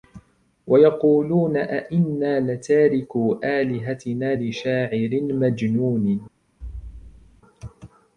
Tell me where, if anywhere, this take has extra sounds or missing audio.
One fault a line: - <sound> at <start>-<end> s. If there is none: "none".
- thud at 6.6-7.4 s